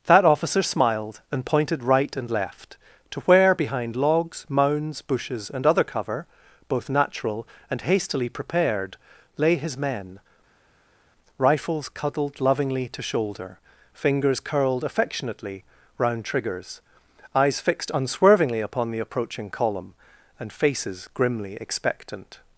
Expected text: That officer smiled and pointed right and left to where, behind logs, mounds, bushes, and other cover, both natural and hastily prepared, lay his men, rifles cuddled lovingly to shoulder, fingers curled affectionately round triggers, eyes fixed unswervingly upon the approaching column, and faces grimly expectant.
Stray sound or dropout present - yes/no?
no